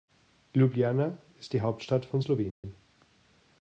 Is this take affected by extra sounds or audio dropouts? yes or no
yes